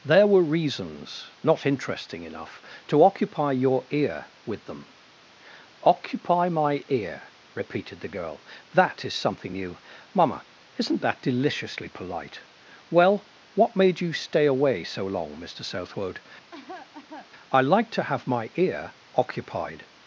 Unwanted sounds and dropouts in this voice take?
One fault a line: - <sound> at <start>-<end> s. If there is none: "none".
- cough at 16.5-17.3 s